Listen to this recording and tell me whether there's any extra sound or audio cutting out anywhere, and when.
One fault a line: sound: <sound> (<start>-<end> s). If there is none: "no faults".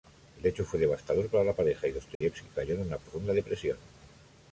sound: dropout (2.1-2.2 s)